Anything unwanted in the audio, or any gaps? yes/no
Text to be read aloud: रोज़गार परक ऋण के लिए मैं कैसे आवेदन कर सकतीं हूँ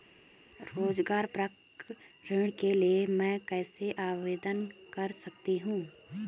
no